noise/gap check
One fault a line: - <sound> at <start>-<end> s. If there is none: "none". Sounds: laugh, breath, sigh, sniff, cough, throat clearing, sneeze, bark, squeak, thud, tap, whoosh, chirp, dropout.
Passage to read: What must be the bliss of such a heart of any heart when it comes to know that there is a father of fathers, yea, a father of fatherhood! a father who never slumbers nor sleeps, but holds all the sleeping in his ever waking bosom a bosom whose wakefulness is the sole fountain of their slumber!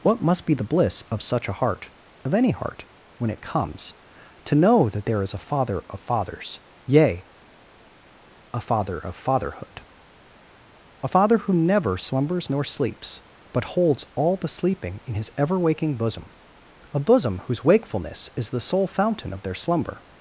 none